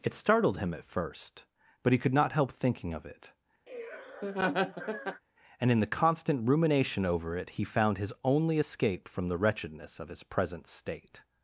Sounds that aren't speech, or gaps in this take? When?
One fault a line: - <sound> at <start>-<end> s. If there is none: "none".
- laugh at 3.7-5.2 s